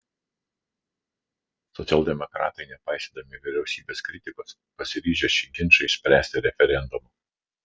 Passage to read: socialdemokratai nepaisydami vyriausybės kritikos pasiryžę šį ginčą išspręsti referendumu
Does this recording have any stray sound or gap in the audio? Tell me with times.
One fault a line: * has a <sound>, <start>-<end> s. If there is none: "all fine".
all fine